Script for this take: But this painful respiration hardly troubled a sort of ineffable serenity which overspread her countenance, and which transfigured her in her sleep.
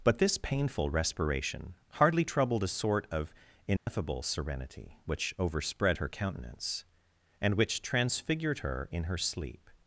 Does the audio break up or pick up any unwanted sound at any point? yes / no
yes